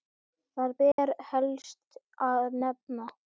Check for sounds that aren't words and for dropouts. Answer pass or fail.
fail